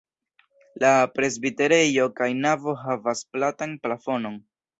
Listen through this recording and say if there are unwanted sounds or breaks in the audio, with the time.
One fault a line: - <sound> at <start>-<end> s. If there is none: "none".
none